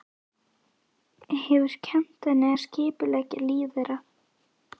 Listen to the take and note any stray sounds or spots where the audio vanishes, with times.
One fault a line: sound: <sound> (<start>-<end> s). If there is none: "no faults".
no faults